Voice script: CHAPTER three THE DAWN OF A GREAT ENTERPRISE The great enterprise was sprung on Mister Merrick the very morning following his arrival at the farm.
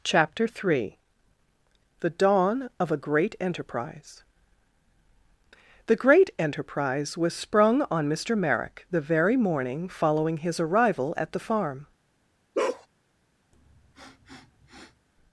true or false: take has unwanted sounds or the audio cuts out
true